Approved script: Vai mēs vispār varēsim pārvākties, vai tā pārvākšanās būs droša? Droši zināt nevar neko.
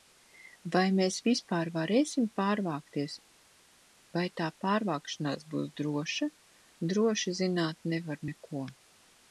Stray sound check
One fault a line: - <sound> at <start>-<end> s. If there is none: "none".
none